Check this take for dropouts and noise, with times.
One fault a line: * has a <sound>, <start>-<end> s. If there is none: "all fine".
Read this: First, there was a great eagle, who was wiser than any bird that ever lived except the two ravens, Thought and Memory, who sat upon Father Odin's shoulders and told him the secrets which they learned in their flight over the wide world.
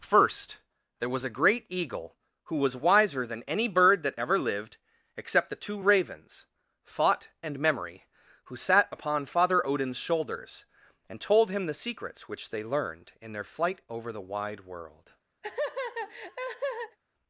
* has a laugh, 15.4-17.0 s